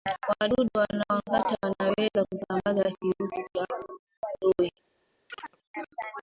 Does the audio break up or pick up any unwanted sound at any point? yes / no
yes